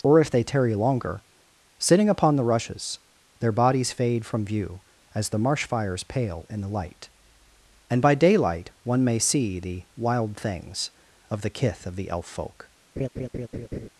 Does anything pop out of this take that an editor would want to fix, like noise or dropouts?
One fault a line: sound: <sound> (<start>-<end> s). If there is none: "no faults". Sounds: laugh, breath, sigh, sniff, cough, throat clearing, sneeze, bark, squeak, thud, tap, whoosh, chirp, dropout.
sound: laugh (13.0-13.9 s)